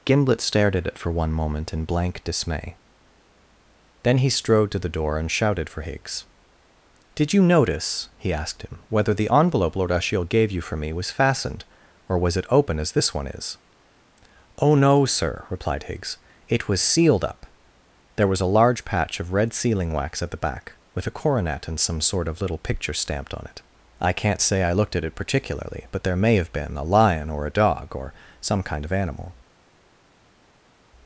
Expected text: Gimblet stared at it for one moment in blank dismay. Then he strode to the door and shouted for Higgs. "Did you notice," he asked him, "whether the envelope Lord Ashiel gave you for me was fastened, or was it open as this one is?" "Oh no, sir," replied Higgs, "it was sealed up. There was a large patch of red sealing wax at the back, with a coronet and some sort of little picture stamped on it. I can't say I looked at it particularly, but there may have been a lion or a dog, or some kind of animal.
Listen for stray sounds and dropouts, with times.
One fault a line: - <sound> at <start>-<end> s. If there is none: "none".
none